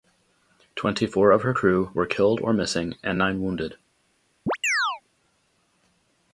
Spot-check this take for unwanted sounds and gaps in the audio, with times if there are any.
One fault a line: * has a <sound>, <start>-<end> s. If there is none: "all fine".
* has a chirp, 4.5-5.0 s